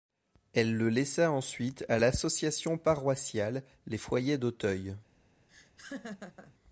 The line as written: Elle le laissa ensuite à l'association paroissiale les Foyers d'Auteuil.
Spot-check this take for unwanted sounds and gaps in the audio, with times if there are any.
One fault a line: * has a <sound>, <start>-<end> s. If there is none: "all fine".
* has a laugh, 5.5-6.5 s